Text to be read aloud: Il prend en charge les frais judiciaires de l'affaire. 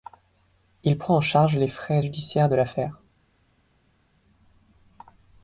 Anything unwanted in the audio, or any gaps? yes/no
no